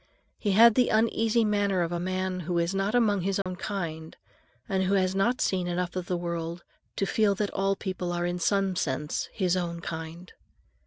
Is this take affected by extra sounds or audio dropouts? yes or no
yes